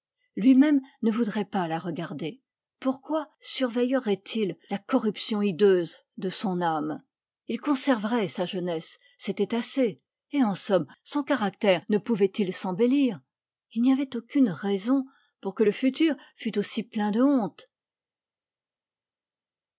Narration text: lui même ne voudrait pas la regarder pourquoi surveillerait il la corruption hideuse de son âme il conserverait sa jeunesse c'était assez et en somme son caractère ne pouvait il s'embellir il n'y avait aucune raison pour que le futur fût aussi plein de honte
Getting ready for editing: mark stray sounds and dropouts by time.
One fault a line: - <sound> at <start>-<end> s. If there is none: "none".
none